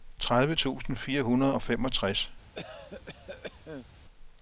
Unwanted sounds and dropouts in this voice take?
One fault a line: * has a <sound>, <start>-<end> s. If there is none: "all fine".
* has a cough, 2.5-3.9 s